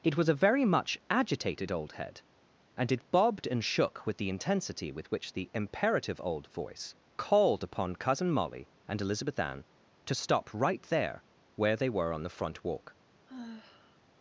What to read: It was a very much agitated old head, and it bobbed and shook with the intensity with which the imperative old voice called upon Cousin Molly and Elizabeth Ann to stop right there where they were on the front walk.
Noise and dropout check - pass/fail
fail